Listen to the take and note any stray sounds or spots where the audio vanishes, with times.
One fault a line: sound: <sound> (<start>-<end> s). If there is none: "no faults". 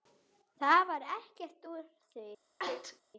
sound: sneeze (2.6-3.0 s)